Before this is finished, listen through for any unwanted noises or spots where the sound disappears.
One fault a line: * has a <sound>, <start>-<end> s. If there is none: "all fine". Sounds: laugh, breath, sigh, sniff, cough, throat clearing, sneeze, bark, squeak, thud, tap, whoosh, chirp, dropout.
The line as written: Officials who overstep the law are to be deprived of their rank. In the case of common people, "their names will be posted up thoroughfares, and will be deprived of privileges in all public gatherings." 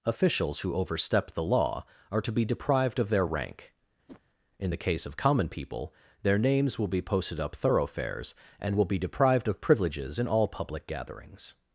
* has a whoosh, 4.1-4.2 s